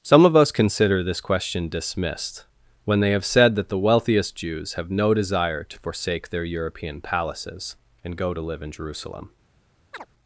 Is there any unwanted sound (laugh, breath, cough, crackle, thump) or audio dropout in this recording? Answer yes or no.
yes